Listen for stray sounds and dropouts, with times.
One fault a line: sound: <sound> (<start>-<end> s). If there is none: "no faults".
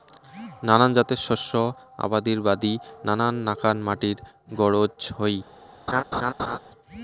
sound: laugh (5.9-6.6 s)